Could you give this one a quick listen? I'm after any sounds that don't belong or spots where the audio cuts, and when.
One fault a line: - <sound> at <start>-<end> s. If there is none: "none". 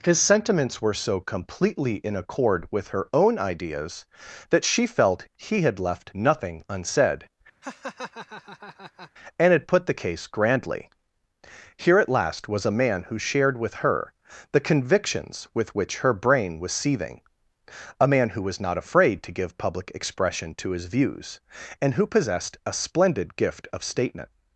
- laugh at 7.6-9.1 s